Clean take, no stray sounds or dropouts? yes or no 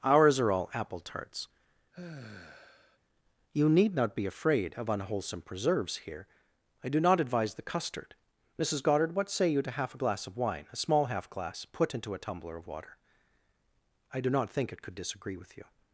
no